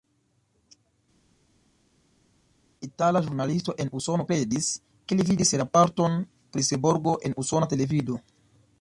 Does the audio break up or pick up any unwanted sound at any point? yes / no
no